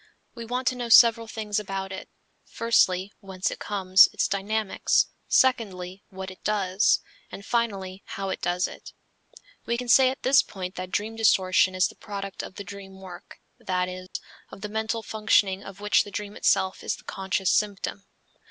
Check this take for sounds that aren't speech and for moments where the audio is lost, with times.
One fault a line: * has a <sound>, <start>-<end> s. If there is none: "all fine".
* has a dropout, 14.1-14.2 s